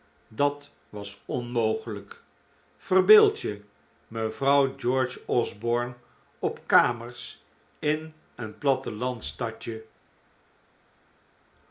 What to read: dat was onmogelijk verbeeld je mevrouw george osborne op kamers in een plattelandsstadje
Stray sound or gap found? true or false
false